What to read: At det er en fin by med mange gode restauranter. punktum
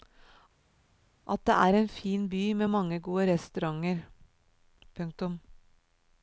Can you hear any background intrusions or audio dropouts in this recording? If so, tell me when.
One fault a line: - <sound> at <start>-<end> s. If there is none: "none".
none